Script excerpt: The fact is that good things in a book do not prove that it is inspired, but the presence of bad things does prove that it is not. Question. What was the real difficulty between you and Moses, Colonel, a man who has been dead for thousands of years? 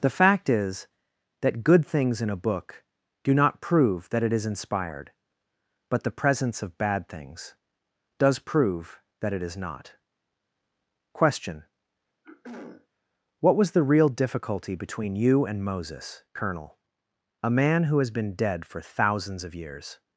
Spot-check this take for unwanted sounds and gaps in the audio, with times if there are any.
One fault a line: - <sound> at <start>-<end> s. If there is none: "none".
- throat clearing at 12.2-12.9 s